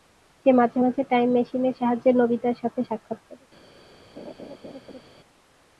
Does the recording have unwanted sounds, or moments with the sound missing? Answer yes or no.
yes